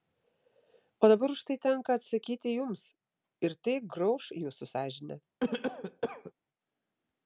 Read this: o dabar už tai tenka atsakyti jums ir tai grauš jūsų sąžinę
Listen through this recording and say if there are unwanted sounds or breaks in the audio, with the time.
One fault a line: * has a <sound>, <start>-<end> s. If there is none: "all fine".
* has a cough, 5.4-6.3 s